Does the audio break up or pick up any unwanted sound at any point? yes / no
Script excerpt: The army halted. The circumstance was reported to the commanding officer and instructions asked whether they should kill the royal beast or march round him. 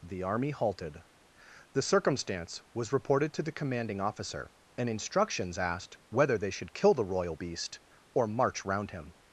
no